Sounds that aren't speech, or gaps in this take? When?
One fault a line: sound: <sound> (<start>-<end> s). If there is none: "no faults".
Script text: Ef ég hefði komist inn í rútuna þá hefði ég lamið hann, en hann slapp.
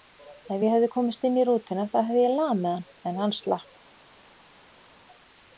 no faults